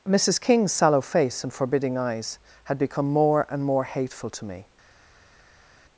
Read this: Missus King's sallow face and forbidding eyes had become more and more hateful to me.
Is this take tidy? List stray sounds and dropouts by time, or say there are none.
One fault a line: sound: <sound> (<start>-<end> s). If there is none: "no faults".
no faults